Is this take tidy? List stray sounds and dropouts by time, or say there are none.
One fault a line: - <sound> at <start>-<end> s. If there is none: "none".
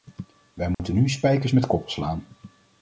- dropout at 0.7-0.8 s